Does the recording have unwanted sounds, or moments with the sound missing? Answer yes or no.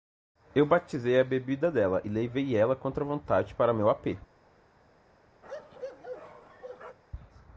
yes